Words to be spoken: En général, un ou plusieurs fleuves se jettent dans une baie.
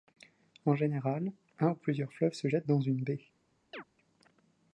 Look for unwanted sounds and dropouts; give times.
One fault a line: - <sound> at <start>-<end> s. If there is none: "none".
- chirp at 3.7-3.8 s